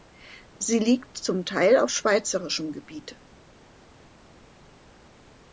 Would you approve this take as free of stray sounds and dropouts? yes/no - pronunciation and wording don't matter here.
yes